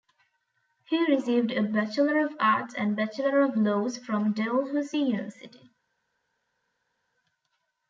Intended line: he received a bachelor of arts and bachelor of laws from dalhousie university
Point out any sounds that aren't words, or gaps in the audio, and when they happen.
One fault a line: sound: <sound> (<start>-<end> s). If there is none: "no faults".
no faults